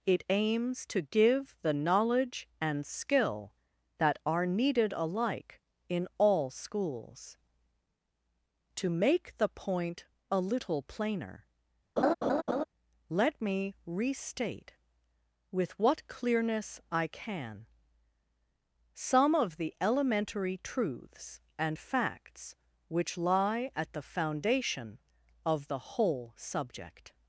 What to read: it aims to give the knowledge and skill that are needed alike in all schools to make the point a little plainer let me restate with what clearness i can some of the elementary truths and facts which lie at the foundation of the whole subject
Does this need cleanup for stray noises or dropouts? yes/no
yes